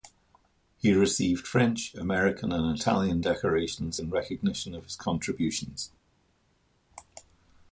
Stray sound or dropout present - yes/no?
no